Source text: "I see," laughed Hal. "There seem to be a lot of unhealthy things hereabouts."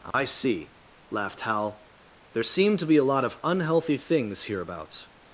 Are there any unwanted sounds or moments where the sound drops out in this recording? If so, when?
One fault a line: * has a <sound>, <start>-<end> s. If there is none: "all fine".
* has a dropout, 0.1-0.1 s